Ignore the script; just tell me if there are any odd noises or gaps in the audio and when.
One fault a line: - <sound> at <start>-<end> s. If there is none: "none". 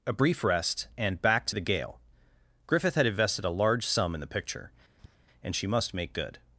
- tap at 5.0-5.2 s